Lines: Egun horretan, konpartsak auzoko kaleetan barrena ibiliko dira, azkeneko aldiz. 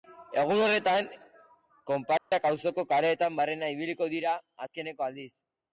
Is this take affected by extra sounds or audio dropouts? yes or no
yes